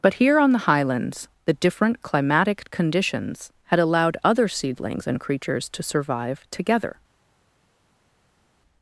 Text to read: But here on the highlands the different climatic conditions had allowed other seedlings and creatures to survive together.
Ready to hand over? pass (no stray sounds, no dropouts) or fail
pass